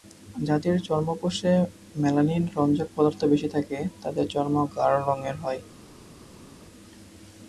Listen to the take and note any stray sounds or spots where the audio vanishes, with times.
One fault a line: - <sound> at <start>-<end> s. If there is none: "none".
none